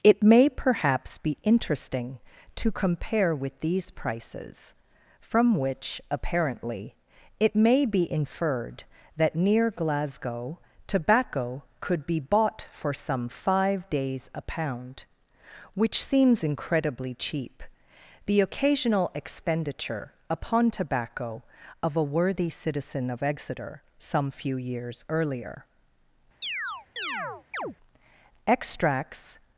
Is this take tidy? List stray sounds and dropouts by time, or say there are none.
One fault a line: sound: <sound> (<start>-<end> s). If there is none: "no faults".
sound: chirp (26.4-27.8 s)